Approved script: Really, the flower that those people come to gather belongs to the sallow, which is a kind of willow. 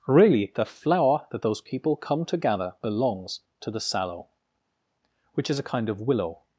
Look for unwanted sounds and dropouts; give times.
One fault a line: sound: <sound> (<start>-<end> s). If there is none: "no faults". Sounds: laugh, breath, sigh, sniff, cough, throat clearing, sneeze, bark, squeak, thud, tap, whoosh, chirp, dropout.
no faults